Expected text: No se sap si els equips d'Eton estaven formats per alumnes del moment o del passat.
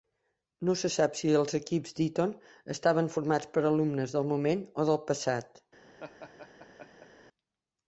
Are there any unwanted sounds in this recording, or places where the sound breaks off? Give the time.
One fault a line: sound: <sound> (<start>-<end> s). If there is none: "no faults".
sound: laugh (6.0-7.1 s)